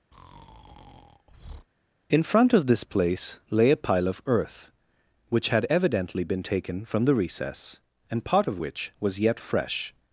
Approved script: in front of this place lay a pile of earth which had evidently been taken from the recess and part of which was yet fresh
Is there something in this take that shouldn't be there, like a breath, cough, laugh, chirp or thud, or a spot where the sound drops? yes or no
yes